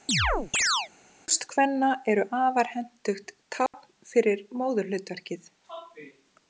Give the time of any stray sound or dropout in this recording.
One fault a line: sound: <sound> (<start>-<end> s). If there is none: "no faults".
sound: chirp (0.1-0.9 s)
sound: dropout (3.7-3.7 s)